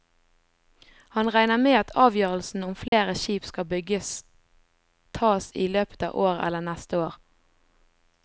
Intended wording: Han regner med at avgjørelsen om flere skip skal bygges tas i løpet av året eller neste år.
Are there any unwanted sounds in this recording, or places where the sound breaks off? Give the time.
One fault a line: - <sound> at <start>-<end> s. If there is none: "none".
- dropout at 2.9-2.9 s